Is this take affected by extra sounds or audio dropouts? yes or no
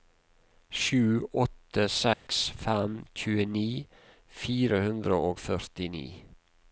yes